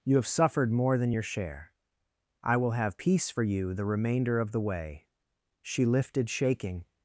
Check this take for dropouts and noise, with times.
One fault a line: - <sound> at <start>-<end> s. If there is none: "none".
none